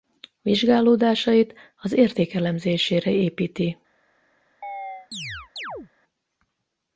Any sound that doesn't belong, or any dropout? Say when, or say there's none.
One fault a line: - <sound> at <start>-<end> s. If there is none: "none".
- chirp at 4.6-5.9 s